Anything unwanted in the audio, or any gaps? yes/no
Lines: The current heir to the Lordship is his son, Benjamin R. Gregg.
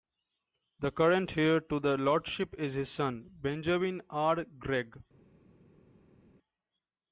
no